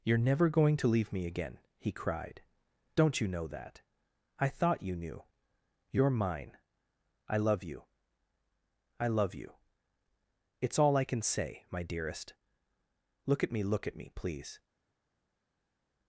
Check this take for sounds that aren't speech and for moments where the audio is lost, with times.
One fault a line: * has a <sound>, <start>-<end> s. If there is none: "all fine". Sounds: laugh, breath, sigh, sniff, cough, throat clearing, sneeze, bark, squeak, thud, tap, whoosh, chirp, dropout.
all fine